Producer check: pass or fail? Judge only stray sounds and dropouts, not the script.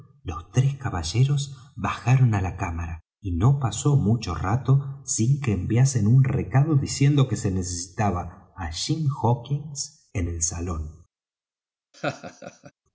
fail